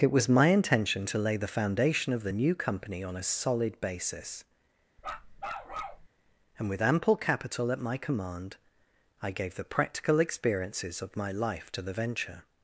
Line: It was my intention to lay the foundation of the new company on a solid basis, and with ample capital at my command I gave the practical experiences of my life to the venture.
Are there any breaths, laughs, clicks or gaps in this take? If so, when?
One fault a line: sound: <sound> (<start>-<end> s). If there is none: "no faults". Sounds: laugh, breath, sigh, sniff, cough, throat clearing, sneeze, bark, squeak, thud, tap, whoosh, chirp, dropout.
sound: bark (5.0-6.1 s)